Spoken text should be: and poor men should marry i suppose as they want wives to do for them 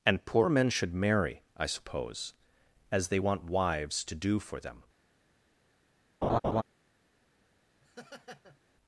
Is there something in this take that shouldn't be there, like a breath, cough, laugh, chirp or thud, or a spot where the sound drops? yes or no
yes